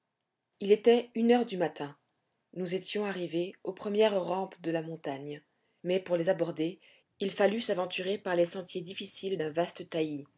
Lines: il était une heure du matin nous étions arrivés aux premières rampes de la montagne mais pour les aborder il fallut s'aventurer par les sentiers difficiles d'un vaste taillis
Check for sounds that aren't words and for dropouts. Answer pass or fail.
pass